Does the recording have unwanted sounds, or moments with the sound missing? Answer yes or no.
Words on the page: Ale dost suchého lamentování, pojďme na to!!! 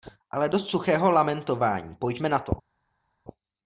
no